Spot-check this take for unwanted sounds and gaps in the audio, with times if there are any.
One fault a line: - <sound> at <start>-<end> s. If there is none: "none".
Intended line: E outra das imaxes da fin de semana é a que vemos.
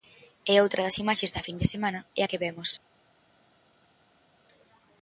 none